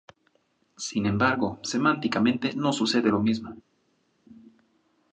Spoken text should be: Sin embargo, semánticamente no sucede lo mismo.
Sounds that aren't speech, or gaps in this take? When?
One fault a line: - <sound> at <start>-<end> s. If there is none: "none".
none